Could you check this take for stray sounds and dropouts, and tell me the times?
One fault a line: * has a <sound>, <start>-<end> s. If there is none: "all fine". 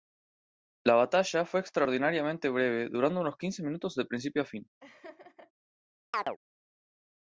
* has a laugh, 4.8-5.5 s
* has a chirp, 6.1-6.4 s